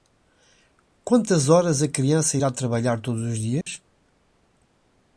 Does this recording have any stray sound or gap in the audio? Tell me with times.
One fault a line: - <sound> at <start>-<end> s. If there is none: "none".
- dropout at 3.6-3.7 s